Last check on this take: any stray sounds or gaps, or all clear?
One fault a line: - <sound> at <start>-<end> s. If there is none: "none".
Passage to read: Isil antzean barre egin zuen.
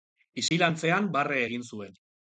- dropout at 0.5-0.5 s